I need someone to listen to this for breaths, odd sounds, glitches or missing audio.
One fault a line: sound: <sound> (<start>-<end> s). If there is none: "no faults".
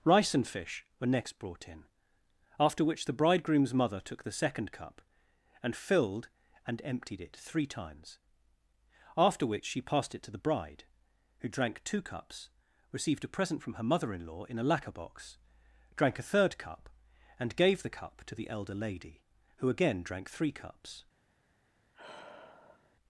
sound: sigh (21.9-23.0 s)